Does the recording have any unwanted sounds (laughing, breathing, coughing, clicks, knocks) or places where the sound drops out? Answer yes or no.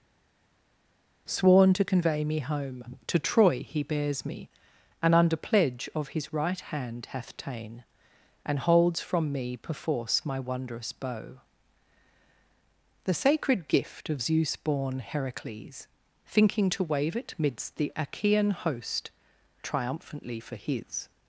no